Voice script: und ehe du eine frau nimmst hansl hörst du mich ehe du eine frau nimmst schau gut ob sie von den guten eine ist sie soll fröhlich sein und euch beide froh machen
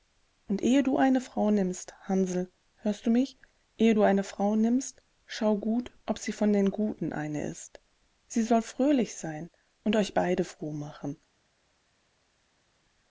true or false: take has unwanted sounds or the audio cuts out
false